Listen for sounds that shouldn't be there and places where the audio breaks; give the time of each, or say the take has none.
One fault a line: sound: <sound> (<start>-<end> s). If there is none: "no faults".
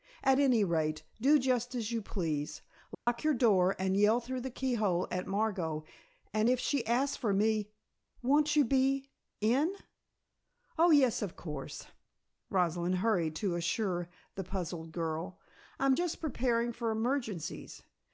sound: dropout (2.9-3.1 s)